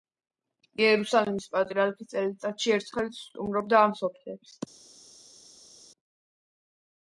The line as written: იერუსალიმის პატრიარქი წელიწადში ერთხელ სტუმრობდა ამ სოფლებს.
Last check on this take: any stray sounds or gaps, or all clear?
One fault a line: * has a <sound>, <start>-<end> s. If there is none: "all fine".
all fine